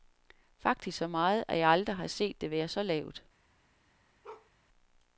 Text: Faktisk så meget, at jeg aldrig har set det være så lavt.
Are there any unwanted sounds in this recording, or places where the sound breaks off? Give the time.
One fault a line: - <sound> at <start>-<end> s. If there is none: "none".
- bark at 4.2-4.5 s